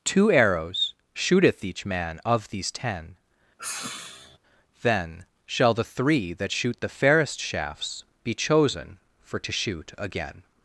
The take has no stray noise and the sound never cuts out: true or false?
false